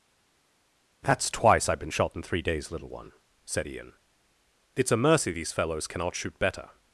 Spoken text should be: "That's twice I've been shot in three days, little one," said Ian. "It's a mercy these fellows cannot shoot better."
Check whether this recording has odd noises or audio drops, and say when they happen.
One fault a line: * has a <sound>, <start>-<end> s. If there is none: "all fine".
all fine